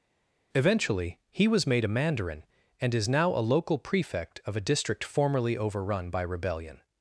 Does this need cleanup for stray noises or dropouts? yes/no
no